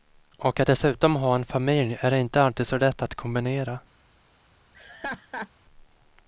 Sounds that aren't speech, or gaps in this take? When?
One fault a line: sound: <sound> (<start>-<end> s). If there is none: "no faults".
sound: laugh (4.7-5.5 s)